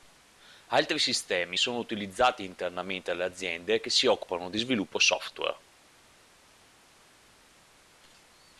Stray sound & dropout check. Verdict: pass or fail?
pass